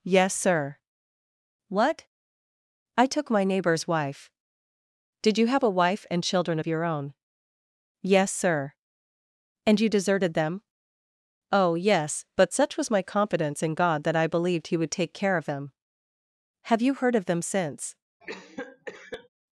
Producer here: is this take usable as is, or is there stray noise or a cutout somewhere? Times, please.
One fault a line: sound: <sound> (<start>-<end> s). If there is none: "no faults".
sound: cough (18.2-19.3 s)